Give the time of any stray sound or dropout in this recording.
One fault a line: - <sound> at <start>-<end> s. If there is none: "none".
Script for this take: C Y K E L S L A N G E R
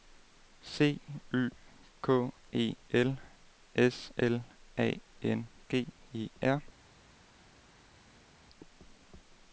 none